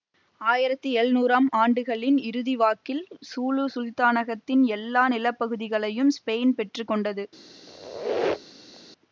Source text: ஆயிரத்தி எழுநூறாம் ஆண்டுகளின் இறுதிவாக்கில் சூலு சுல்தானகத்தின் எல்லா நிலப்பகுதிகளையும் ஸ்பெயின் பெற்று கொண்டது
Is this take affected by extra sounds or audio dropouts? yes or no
yes